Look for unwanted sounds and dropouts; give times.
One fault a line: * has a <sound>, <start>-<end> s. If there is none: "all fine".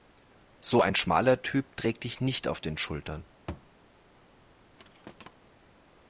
* has a thud, 3.5-3.7 s
* has a thud, 4.8-5.3 s